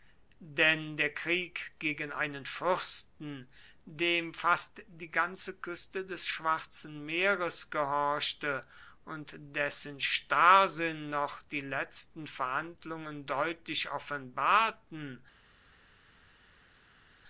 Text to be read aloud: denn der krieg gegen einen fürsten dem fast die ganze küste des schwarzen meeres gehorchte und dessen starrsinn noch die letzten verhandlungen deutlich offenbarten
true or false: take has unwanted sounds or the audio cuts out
false